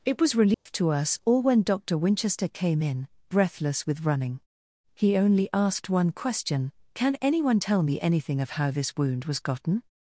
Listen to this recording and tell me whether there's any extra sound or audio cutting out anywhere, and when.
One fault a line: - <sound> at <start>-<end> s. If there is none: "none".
- dropout at 0.5-0.7 s